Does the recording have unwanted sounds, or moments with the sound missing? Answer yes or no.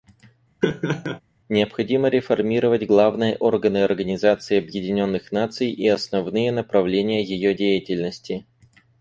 yes